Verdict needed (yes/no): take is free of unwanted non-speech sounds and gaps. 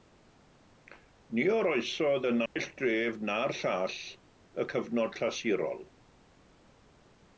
no